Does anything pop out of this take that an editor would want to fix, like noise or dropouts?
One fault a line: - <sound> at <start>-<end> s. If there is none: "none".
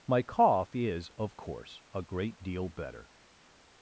none